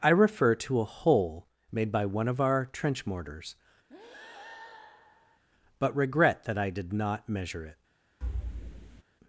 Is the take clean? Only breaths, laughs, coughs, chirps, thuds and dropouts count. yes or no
no